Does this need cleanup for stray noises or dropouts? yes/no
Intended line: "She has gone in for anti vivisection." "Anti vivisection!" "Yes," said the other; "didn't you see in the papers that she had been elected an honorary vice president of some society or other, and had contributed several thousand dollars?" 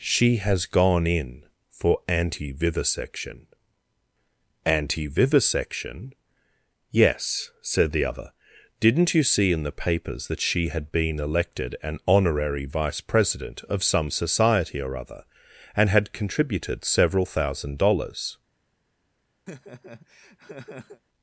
yes